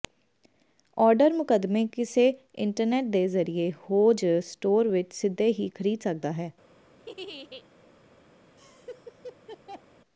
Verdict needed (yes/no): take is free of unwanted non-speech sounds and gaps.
no